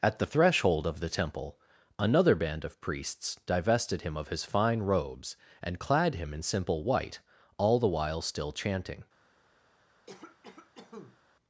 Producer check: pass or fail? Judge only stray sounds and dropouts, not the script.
fail